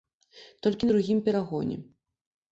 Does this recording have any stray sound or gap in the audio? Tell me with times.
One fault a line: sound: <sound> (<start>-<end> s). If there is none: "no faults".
no faults